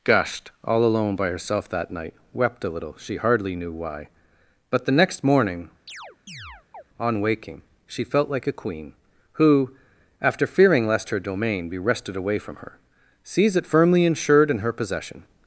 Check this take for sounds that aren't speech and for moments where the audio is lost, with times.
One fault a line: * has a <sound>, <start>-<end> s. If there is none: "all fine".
* has a chirp, 5.9-6.8 s